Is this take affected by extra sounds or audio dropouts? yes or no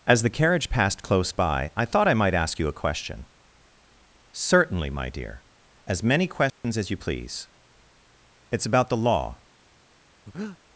yes